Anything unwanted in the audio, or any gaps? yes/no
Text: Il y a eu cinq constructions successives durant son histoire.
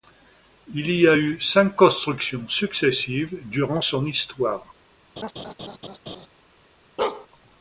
yes